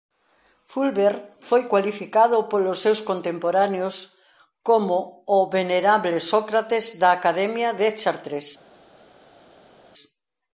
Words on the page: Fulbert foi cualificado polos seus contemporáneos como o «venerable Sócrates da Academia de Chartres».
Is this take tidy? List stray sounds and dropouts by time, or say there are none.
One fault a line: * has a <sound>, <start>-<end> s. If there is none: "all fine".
all fine